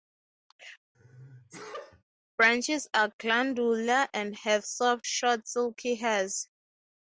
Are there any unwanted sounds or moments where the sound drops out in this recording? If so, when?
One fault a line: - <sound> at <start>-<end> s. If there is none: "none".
- sneeze at 0.9-2.0 s